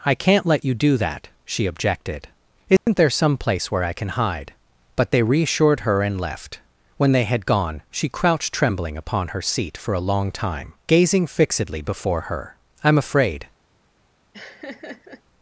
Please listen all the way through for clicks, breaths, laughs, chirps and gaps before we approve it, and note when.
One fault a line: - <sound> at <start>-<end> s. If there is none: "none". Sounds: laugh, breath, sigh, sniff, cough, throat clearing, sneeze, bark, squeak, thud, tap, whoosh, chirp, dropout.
- dropout at 2.8-2.9 s
- laugh at 14.3-15.2 s